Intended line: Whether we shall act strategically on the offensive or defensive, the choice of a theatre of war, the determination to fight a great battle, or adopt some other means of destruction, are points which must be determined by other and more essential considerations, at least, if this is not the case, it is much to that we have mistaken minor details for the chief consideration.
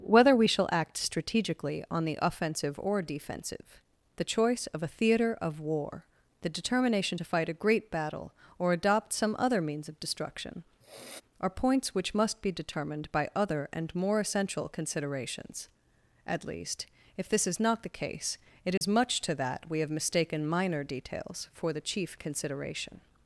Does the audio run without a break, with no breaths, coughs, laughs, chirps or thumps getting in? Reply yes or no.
no